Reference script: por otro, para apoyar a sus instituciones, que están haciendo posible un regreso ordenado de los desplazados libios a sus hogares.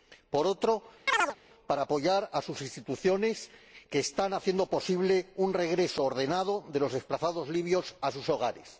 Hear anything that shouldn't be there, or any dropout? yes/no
yes